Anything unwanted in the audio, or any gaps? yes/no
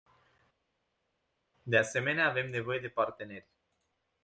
no